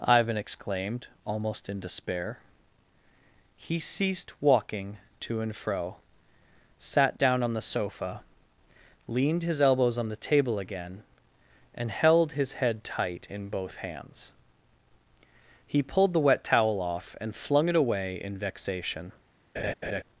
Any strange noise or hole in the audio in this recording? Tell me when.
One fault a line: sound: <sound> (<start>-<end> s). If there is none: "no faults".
sound: laugh (19.5-20.0 s)